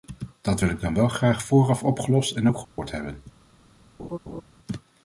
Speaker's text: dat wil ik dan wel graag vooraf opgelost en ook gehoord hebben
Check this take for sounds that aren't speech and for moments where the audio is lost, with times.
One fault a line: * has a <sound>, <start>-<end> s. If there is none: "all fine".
* has a dropout, 2.6-2.8 s
* has a laugh, 4.0-4.4 s